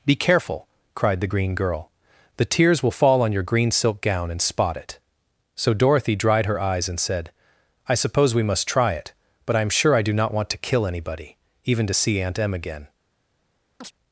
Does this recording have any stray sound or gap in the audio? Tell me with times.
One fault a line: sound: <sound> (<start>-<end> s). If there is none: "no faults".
sound: chirp (13.8-13.9 s)